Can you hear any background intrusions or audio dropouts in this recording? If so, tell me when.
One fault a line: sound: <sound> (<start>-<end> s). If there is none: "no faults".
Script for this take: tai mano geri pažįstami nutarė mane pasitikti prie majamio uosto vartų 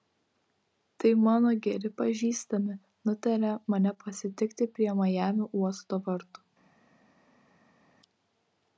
no faults